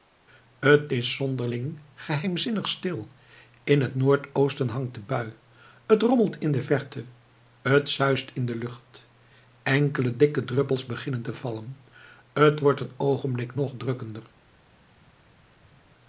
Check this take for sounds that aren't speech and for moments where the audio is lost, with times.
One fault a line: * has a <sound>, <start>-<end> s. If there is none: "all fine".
all fine